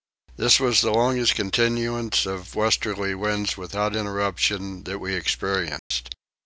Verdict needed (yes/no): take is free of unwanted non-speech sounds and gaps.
no